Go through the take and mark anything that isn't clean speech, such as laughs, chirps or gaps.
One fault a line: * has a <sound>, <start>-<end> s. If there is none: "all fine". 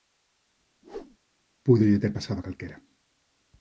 * has a whoosh, 0.8-1.2 s